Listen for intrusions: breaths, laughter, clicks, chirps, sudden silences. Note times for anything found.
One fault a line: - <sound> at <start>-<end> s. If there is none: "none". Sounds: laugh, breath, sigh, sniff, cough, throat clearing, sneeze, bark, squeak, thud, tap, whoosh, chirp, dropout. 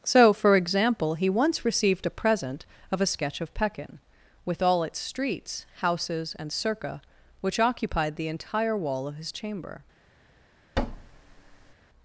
- thud at 10.8-11.7 s